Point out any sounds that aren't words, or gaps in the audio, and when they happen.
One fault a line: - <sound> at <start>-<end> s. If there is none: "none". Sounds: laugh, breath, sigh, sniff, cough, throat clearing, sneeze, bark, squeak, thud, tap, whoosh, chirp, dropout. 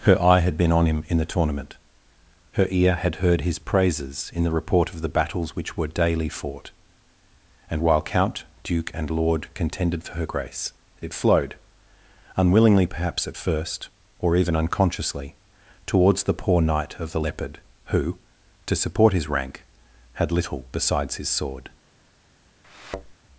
- thud at 22.6-23.1 s